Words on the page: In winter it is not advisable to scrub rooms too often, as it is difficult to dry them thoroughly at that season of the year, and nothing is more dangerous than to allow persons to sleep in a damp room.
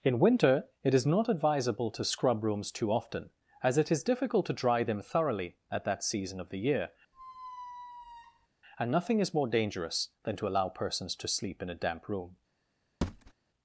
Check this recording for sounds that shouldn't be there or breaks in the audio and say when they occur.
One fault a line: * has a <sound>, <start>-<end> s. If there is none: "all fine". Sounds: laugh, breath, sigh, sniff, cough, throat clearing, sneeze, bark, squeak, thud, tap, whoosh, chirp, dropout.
* has a squeak, 7.1-8.5 s
* has a thud, 13.0-13.3 s